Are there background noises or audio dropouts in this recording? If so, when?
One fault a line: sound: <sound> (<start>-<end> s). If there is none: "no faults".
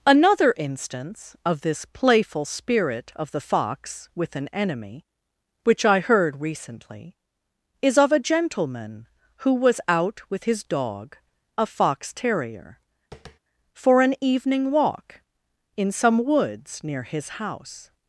sound: tap (13.1-13.4 s)